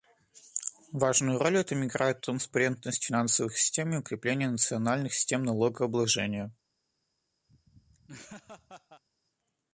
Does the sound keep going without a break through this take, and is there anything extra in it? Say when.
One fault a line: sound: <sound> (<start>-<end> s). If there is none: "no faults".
sound: laugh (7.5-9.0 s)